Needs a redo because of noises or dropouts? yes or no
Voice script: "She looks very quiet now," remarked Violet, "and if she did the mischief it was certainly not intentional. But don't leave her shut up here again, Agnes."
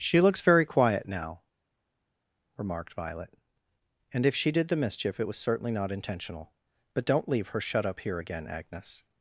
no